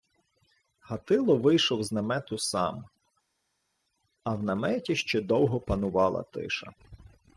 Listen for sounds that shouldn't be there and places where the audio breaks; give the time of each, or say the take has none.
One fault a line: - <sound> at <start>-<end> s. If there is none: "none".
none